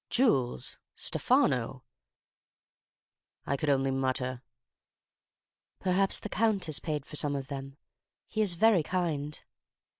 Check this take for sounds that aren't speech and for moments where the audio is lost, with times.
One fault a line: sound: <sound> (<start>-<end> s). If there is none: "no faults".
no faults